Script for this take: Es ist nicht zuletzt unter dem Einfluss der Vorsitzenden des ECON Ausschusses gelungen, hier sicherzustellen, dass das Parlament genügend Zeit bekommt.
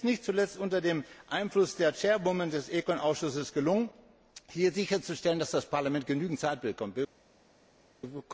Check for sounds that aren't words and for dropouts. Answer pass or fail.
pass